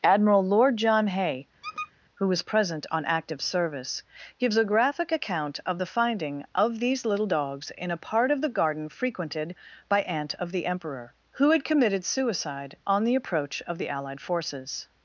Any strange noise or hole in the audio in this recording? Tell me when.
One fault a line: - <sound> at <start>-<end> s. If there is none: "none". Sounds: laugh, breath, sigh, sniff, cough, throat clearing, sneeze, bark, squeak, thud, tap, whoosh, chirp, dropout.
- squeak at 1.6-1.9 s